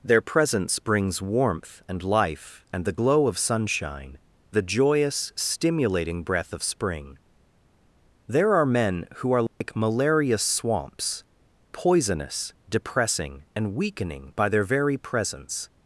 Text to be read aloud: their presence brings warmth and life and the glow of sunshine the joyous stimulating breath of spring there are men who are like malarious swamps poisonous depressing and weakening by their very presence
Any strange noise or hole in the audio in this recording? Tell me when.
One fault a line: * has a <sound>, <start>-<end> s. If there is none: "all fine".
* has a dropout, 9.5-9.6 s